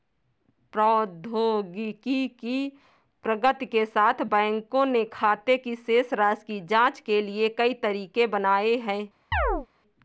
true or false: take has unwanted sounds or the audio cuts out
true